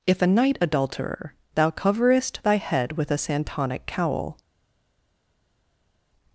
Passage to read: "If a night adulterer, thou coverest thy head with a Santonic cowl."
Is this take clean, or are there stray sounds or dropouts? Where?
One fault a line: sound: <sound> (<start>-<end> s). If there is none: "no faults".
no faults